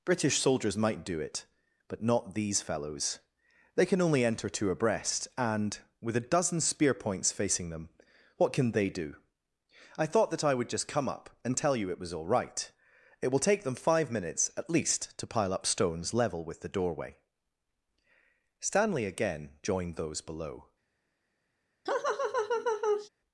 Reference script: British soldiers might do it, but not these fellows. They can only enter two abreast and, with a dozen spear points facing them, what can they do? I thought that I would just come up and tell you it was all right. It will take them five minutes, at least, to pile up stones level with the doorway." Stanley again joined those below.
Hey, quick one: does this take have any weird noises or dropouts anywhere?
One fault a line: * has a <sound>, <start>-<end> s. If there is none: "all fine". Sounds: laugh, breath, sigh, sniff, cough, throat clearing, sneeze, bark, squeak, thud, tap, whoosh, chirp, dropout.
* has a laugh, 21.9-23.1 s